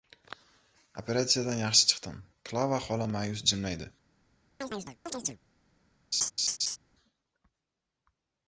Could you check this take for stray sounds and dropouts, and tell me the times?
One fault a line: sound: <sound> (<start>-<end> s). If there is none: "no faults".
sound: chirp (4.6-5.4 s)
sound: laugh (6.1-6.8 s)